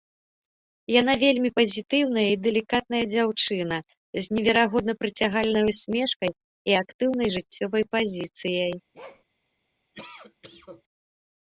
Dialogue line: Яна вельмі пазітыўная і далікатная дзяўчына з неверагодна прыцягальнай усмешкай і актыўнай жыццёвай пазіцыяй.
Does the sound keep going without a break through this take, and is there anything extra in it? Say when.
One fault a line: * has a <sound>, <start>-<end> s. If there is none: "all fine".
* has a bark, 8.9-9.2 s
* has a cough, 9.9-10.8 s